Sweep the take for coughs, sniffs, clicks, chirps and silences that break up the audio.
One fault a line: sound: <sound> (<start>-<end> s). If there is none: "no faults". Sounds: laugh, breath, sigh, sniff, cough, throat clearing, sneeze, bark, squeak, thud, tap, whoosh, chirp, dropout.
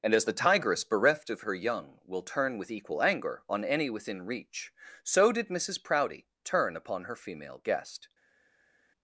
no faults